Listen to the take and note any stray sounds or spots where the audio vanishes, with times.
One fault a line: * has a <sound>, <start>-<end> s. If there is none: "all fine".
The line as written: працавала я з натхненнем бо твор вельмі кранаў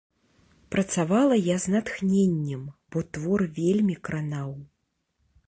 all fine